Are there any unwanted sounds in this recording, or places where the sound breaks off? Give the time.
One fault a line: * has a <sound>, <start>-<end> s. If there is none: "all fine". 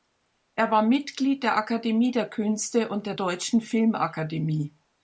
all fine